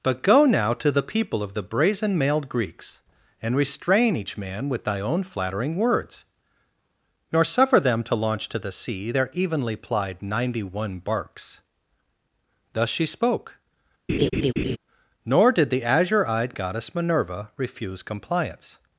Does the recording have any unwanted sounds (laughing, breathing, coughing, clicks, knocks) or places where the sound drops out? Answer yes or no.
yes